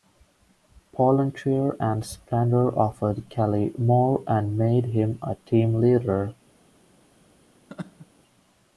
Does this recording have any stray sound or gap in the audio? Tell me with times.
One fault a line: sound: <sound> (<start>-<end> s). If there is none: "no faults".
sound: laugh (7.7-8.1 s)